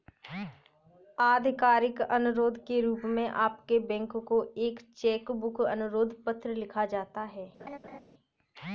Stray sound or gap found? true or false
true